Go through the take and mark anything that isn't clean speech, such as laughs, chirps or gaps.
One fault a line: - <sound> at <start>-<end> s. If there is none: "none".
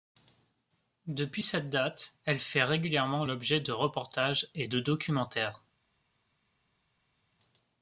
none